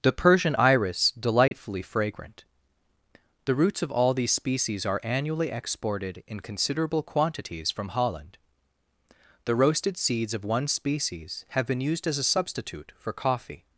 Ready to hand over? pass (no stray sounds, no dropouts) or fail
fail